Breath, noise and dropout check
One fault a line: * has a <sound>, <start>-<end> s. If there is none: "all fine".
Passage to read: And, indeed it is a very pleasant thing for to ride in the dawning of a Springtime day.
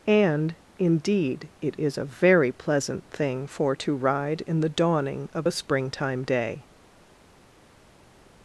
all fine